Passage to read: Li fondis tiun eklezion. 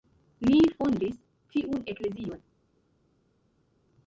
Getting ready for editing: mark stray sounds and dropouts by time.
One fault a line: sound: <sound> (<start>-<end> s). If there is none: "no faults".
no faults